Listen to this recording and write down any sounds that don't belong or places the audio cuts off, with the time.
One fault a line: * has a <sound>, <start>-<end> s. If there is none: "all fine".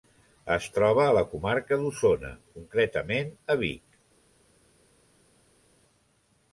all fine